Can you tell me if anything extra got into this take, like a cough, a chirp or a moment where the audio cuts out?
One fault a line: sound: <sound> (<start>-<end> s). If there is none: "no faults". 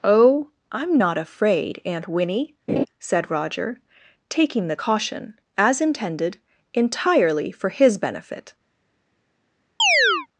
sound: laugh (2.7-2.9 s)
sound: chirp (9.8-10.3 s)